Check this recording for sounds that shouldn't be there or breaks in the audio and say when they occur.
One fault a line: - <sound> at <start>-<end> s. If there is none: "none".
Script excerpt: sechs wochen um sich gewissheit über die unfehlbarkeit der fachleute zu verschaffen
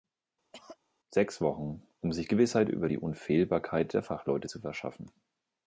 - cough at 0.5-0.8 s